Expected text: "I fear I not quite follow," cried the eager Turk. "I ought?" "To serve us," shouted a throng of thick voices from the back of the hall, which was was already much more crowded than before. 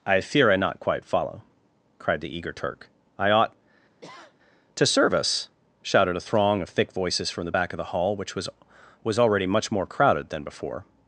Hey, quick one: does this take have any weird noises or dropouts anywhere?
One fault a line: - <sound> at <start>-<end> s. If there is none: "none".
- sniff at 4.0-4.4 s